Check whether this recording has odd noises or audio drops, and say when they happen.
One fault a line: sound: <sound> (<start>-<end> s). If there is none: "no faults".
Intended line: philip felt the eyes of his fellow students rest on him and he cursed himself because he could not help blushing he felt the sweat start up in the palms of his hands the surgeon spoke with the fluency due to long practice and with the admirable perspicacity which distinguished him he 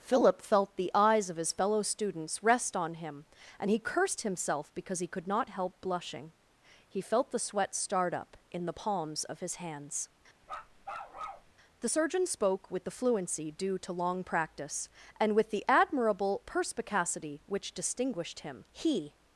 sound: bark (10.4-11.5 s)